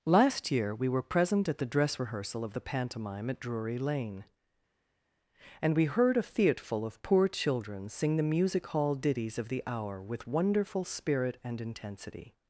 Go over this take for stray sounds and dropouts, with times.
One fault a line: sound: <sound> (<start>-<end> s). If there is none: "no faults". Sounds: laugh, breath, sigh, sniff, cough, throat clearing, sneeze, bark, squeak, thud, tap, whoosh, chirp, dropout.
no faults